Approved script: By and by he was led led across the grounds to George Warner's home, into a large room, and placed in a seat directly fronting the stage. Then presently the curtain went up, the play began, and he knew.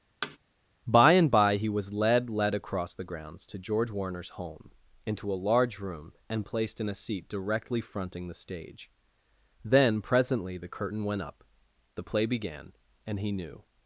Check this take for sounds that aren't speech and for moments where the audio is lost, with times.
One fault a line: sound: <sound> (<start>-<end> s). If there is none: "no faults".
sound: thud (0.2-0.4 s)